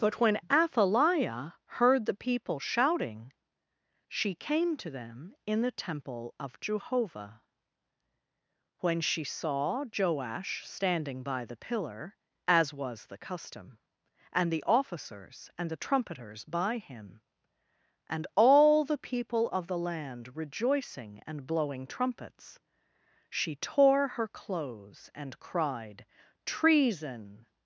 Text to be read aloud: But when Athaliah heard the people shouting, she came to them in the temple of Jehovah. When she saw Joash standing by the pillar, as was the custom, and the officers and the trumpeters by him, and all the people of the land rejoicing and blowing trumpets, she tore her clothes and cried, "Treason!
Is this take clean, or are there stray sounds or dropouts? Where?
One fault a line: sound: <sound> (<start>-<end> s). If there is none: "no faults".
no faults